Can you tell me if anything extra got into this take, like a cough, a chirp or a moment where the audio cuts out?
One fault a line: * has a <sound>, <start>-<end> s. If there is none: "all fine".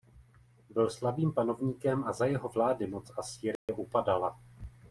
* has a dropout, 3.6-3.7 s